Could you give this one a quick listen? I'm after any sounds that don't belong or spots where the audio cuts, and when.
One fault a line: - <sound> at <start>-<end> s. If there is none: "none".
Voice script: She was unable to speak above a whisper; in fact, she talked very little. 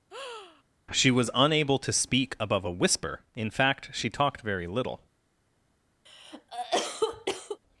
- breath at 0.1-0.6 s
- cough at 6.1-7.6 s